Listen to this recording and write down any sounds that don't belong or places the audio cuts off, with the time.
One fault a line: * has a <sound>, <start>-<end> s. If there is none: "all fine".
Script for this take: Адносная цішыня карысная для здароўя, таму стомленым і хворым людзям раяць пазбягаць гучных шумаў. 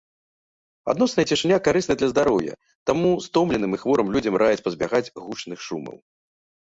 all fine